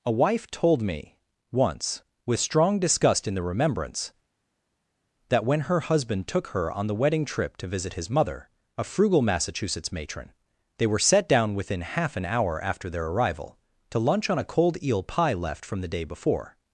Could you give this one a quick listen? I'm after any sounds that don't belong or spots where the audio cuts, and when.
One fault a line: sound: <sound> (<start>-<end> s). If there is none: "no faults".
no faults